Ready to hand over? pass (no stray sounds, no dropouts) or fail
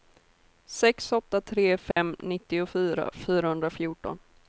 fail